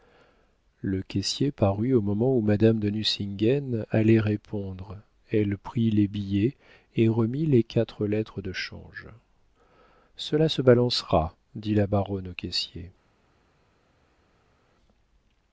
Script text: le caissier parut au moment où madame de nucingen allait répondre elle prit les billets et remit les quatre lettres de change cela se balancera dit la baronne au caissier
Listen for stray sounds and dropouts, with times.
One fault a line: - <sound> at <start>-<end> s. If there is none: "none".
none